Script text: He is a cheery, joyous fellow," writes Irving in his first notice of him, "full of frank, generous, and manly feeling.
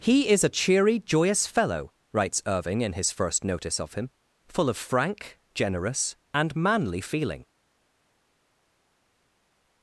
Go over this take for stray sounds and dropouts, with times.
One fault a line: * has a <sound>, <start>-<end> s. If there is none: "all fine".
all fine